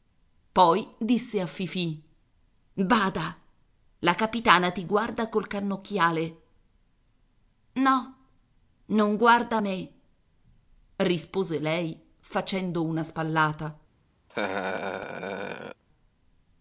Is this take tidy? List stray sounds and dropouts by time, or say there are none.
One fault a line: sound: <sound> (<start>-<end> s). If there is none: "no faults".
sound: laugh (14.3-15.8 s)